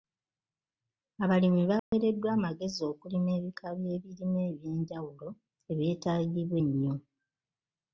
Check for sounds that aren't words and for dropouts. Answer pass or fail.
fail